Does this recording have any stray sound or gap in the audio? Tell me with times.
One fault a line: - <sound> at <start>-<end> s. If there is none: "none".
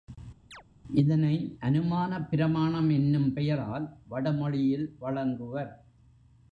- chirp at 0.5-0.6 s